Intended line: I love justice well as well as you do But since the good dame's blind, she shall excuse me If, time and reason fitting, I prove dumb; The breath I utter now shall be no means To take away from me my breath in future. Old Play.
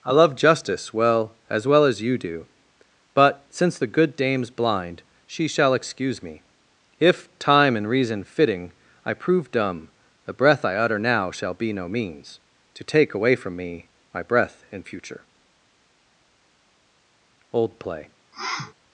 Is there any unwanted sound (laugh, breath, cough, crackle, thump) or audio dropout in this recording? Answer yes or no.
yes